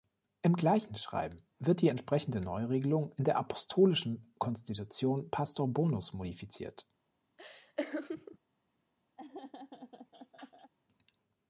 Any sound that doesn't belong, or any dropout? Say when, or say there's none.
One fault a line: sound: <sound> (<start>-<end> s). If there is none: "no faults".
sound: laugh (7.4-8.4 s)
sound: laugh (9.2-10.7 s)